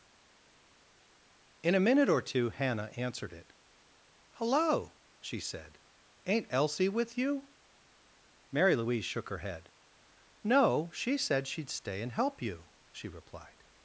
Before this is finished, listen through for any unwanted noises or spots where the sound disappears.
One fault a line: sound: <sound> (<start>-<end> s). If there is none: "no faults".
no faults